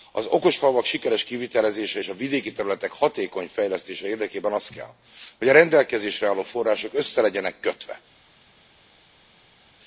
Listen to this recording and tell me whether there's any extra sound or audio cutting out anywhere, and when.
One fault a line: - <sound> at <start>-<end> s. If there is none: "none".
none